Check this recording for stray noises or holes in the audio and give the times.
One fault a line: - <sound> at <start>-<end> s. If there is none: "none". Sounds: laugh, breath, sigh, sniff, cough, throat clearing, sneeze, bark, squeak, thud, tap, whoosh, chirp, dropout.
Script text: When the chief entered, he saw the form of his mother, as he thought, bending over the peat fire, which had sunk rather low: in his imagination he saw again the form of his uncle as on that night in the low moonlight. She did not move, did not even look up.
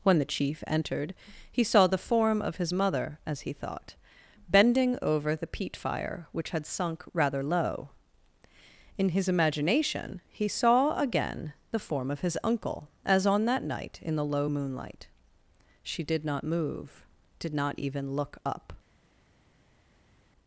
none